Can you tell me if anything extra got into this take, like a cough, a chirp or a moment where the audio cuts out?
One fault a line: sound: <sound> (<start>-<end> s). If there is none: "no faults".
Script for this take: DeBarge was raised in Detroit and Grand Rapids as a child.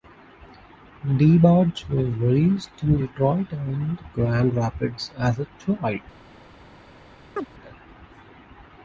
sound: chirp (7.4-7.5 s)